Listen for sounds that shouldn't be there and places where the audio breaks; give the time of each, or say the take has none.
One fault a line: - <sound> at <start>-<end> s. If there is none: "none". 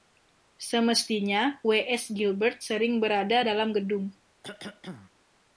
- cough at 4.4-5.1 s